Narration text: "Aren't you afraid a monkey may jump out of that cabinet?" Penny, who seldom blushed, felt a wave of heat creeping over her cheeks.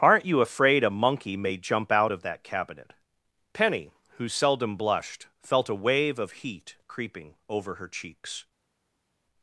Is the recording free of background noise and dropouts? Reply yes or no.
yes